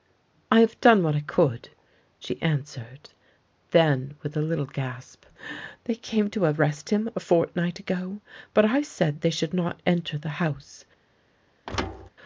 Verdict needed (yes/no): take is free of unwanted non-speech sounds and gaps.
no